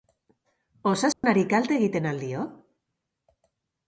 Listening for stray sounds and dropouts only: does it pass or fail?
fail